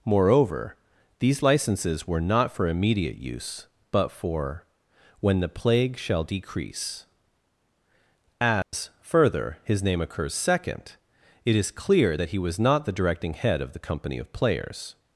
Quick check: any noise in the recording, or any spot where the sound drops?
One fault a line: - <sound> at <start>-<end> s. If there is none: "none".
- dropout at 8.6-8.7 s